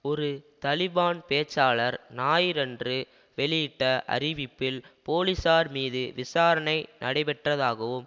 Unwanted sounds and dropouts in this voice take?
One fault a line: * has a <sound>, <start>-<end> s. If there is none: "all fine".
all fine